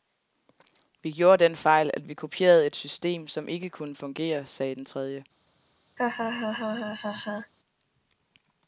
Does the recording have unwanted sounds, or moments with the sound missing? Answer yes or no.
yes